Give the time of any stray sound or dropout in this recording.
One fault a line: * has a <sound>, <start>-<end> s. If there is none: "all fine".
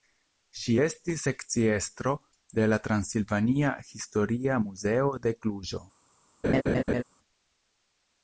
* has a laugh, 6.4-7.0 s